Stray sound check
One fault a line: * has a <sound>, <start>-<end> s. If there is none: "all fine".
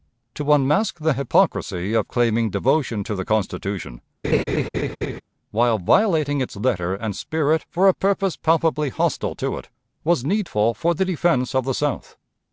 * has a laugh, 4.2-5.2 s